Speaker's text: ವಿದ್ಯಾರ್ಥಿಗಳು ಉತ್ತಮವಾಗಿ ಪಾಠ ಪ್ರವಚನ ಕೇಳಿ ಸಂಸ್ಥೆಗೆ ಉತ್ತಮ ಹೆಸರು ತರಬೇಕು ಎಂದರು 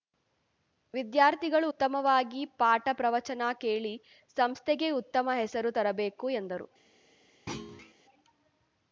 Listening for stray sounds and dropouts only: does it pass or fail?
fail